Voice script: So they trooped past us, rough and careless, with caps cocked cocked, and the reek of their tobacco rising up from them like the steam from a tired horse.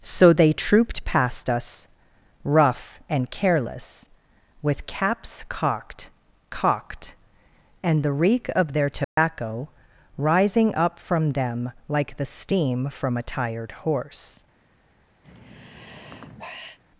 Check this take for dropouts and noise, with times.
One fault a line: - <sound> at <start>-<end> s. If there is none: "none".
- dropout at 9.0-9.2 s
- sigh at 15.2-16.8 s